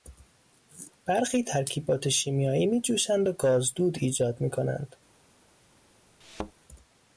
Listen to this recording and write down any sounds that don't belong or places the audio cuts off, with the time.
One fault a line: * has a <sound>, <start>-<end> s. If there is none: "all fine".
* has a thud, 6.2-6.5 s